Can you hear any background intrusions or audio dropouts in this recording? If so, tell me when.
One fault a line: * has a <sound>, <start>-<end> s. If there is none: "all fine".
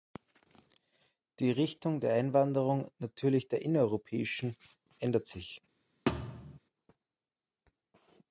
* has a thud, 6.1-6.6 s